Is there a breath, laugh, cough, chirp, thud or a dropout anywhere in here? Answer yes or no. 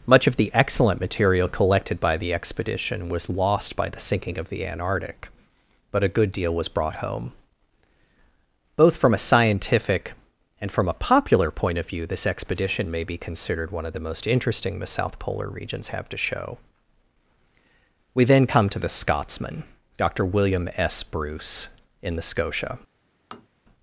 yes